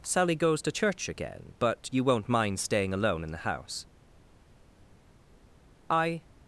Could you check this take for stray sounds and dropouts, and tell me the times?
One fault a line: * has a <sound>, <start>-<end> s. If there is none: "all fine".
all fine